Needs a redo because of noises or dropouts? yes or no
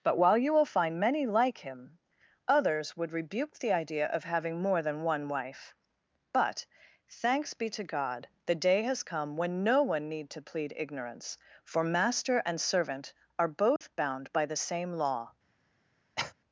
yes